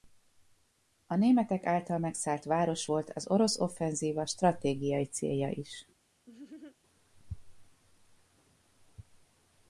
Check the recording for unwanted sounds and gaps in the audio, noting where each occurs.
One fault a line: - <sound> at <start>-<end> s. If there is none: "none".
- laugh at 6.3-6.8 s